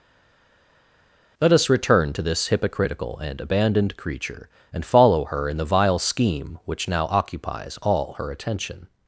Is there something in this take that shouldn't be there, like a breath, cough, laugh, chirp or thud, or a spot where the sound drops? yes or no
no